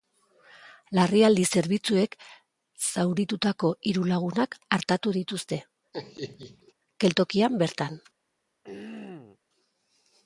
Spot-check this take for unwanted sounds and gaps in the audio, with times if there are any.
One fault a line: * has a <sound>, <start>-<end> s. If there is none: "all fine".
* has a laugh, 5.9-6.7 s
* has a throat clearing, 8.6-9.4 s